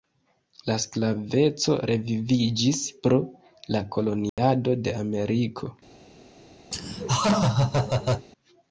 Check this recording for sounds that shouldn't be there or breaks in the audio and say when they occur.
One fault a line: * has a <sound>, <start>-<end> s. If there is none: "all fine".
* has a dropout, 4.3-4.4 s
* has a laugh, 6.7-8.3 s